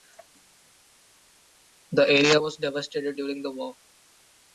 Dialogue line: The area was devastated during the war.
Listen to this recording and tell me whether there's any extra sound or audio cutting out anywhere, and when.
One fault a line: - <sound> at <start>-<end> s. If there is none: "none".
none